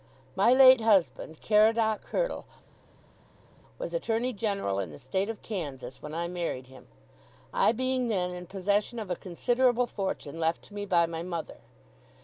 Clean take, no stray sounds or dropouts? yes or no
yes